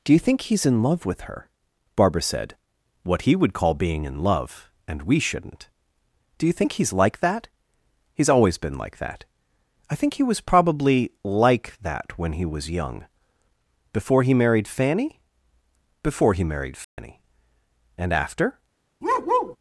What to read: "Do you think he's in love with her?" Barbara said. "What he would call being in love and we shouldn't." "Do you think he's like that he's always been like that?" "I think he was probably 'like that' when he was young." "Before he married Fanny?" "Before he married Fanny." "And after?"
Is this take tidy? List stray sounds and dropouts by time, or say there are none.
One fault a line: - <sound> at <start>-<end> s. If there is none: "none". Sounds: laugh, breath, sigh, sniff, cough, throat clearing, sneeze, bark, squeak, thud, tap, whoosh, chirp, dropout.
- dropout at 16.8-17.0 s
- bark at 19.0-19.6 s